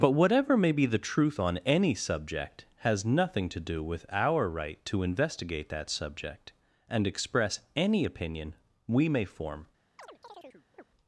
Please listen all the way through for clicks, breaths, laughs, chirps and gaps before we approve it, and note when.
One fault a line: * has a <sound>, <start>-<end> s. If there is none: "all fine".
* has a chirp, 10.0-10.8 s